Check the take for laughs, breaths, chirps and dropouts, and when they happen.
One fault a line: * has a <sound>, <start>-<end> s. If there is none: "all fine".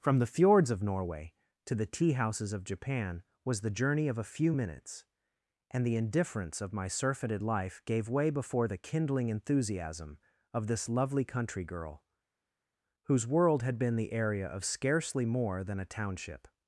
all fine